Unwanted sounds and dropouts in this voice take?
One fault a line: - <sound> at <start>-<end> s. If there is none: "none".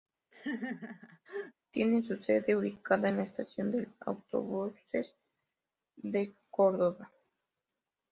- laugh at 0.3-1.5 s